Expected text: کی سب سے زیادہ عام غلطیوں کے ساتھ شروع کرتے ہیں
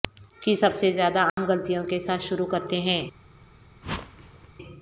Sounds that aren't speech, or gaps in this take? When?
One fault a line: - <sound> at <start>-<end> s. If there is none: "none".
- dropout at 1.3-1.4 s
- whoosh at 3.8-4.5 s